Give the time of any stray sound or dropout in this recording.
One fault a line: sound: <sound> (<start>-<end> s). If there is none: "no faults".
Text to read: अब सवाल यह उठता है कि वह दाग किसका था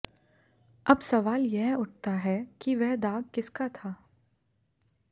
no faults